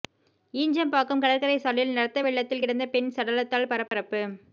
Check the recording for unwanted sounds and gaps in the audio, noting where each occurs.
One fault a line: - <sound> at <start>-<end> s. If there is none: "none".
- dropout at 3.9-3.9 s